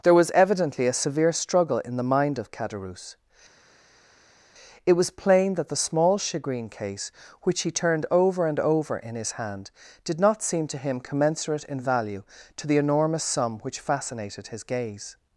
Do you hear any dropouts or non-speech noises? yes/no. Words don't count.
no